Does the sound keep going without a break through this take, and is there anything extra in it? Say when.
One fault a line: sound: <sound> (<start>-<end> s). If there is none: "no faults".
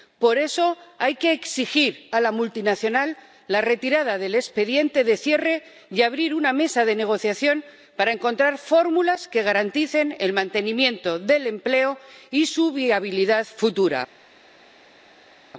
no faults